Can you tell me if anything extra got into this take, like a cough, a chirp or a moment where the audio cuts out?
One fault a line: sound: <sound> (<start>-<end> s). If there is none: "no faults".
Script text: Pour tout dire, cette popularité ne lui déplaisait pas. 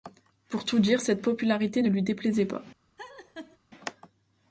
sound: laugh (3.0-3.6 s)